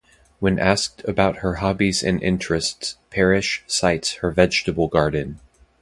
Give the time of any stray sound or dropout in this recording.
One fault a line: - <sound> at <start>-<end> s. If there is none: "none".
none